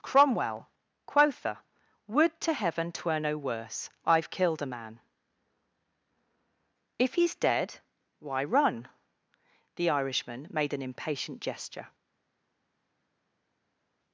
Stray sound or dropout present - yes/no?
no